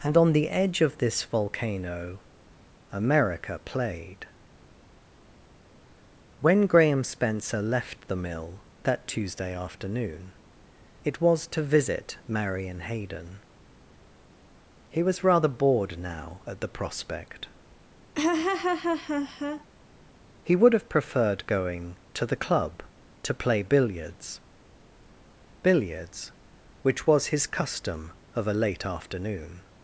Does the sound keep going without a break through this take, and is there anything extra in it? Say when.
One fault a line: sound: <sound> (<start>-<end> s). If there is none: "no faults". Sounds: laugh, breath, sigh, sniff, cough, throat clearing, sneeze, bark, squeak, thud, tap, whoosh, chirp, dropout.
sound: laugh (18.1-19.7 s)